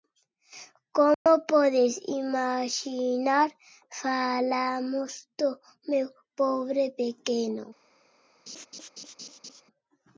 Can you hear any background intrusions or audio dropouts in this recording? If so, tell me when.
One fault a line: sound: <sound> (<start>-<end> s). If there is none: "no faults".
sound: dropout (1.1-1.3 s)
sound: laugh (8.5-9.6 s)